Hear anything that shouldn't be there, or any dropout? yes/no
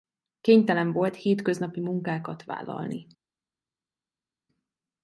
no